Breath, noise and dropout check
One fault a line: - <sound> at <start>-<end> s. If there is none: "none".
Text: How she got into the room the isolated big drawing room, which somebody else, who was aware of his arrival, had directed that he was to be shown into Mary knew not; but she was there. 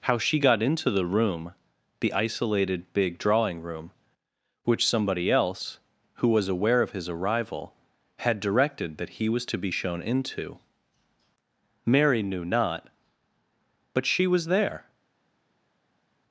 none